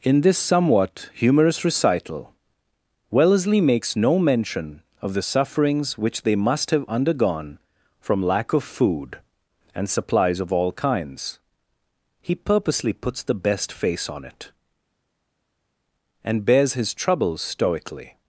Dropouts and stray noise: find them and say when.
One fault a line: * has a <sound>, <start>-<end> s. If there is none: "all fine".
all fine